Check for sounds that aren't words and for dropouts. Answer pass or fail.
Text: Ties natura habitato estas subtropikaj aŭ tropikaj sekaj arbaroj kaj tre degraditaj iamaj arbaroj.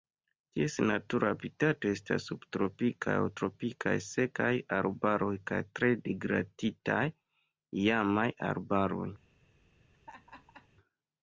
fail